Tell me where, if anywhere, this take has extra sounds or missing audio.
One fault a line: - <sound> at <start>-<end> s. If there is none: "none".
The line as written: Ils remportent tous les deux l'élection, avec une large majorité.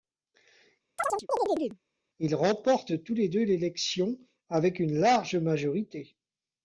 - chirp at 1.0-1.8 s